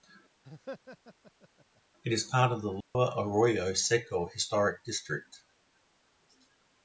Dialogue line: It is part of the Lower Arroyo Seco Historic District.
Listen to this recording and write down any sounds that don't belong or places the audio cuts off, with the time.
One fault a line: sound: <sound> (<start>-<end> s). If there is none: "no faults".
sound: laugh (0.4-1.8 s)
sound: dropout (2.8-3.0 s)